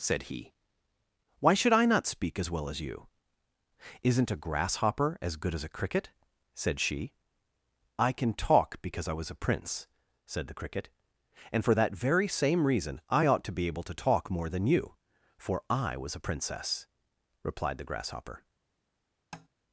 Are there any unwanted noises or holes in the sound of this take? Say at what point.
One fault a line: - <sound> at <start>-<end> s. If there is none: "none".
- tap at 19.3-19.5 s